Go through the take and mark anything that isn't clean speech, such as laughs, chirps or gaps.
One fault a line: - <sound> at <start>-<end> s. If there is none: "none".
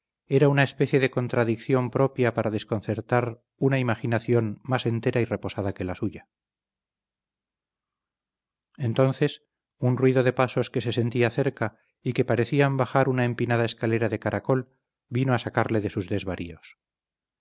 none